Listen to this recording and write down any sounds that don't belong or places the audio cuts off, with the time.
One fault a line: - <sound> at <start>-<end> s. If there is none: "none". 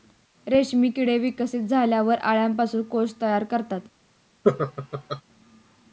- laugh at 4.4-5.2 s